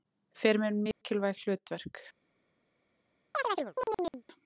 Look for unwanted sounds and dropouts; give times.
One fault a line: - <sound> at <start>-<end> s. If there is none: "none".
- dropout at 0.9-1.0 s
- chirp at 3.3-4.2 s